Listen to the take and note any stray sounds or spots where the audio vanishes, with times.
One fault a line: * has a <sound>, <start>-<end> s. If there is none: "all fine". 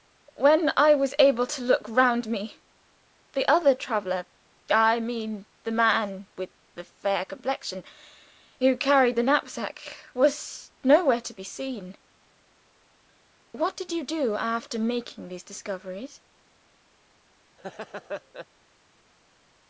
* has a laugh, 17.6-18.5 s